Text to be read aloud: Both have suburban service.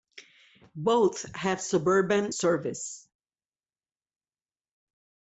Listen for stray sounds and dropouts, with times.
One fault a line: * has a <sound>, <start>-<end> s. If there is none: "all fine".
all fine